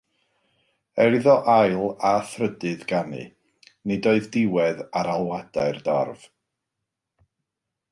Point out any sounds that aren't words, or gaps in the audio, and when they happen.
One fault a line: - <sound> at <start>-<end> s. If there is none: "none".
none